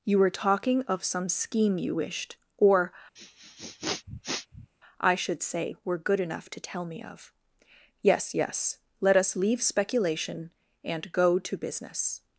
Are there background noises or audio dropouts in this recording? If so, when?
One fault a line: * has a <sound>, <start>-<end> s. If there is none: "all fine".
* has a sniff, 3.2-4.7 s